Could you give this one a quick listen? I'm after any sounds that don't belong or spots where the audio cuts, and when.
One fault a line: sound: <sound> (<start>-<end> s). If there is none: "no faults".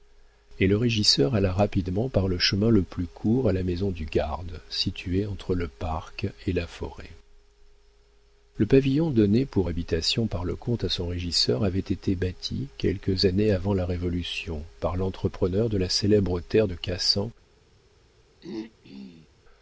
sound: throat clearing (18.4-19.3 s)